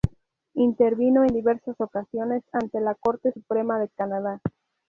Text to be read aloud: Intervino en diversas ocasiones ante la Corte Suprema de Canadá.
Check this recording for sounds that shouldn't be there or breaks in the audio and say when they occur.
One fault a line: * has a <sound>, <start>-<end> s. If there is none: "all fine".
all fine